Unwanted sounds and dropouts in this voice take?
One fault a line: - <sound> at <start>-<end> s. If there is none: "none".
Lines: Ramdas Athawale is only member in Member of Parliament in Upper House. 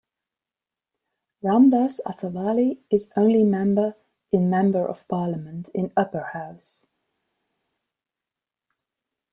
none